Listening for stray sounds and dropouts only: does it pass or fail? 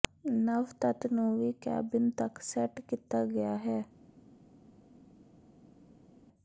pass